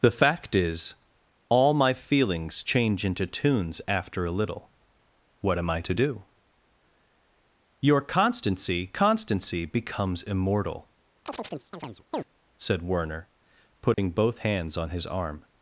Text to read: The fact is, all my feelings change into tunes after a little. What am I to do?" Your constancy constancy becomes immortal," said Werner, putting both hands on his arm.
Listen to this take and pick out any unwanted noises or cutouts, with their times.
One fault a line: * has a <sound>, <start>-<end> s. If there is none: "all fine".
* has a chirp, 11.3-12.3 s
* has a dropout, 13.9-14.0 s